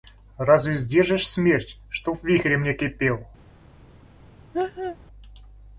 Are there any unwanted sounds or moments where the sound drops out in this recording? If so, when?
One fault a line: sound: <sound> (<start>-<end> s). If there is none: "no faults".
sound: laugh (4.5-5.0 s)